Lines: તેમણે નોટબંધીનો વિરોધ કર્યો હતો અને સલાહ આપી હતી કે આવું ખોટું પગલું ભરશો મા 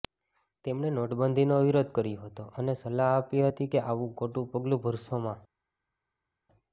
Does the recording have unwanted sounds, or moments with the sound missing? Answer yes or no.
no